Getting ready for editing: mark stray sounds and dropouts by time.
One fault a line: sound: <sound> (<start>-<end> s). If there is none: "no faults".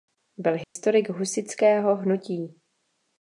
sound: dropout (0.6-0.8 s)